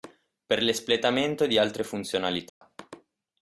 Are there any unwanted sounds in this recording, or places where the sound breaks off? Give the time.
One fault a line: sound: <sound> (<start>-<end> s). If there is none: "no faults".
sound: dropout (2.5-2.6 s)